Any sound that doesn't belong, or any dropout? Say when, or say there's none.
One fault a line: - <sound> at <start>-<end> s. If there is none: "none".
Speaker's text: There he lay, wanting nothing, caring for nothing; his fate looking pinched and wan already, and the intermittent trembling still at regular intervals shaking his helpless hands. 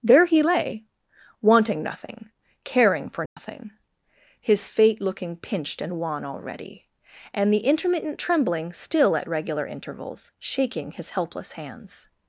- dropout at 3.3-3.4 s